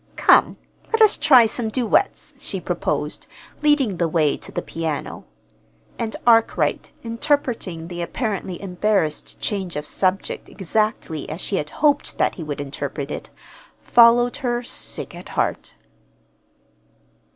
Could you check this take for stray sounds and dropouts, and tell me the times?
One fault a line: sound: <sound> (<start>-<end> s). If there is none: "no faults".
no faults